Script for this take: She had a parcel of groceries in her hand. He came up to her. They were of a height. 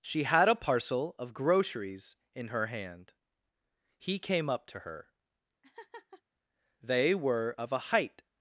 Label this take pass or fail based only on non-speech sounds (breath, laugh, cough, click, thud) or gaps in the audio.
fail